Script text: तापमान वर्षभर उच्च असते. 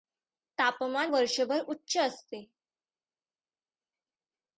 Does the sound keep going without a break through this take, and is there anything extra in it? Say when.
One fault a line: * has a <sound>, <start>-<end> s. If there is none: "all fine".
all fine